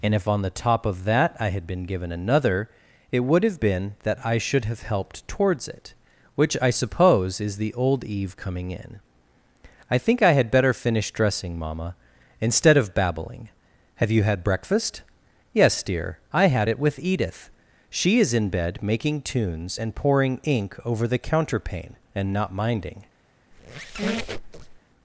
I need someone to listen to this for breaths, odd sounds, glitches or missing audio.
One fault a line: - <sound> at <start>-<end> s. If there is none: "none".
- squeak at 23.5-24.8 s